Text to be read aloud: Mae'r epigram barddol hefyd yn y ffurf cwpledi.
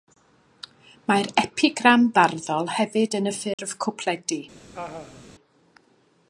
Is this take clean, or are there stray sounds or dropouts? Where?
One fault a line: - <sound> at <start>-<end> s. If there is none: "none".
- dropout at 3.5-3.6 s
- laugh at 4.7-5.3 s